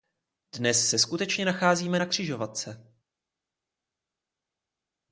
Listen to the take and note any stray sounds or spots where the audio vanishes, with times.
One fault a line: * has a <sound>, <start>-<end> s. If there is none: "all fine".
all fine